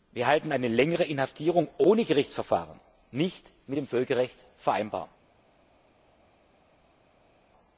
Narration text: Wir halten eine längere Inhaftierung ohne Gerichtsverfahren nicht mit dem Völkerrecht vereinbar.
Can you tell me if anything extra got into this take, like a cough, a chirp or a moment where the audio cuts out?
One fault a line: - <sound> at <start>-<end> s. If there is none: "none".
none